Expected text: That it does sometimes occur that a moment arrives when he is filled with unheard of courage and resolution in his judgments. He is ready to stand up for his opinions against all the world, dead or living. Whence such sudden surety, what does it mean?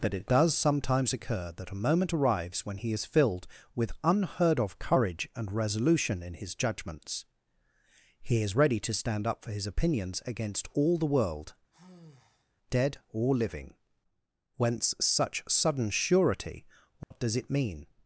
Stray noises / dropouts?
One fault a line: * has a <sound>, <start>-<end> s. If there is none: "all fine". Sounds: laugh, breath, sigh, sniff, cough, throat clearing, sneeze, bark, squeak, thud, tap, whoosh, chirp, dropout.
* has a sigh, 11.7-12.6 s
* has a dropout, 17.0-17.1 s